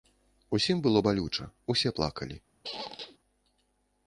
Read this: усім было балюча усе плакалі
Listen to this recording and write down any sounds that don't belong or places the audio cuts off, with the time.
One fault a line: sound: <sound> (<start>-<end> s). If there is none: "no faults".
sound: squeak (2.6-3.2 s)